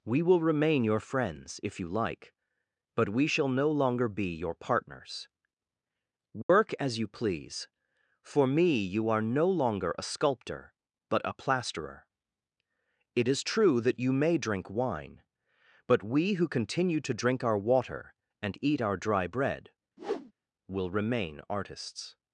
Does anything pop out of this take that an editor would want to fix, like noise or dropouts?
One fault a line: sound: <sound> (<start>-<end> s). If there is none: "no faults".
sound: dropout (6.4-6.5 s)
sound: whoosh (20.0-20.3 s)